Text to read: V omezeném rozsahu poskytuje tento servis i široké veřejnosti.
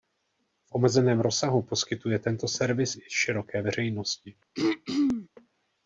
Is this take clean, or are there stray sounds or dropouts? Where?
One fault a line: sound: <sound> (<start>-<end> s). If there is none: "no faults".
sound: throat clearing (4.5-5.3 s)